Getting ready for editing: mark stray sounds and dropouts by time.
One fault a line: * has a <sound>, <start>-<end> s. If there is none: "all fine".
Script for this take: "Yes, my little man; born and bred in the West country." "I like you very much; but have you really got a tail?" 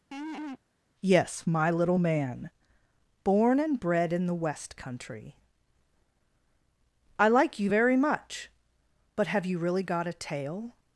* has a laugh, 0.1-0.6 s